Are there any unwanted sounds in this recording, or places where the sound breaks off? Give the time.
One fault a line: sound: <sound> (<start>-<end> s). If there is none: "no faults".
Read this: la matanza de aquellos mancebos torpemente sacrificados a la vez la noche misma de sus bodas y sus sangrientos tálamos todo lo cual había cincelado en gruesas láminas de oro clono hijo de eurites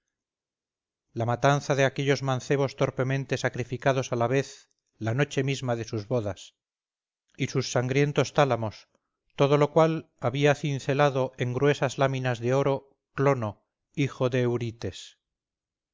no faults